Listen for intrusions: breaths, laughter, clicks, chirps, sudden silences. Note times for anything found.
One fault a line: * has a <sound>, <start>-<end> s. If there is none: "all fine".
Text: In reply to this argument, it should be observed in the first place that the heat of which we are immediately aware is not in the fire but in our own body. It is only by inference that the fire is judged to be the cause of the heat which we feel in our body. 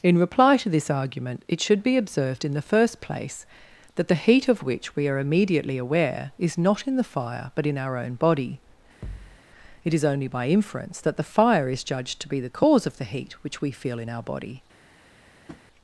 * has a thud, 9.0-9.4 s
* has a tap, 15.5-15.6 s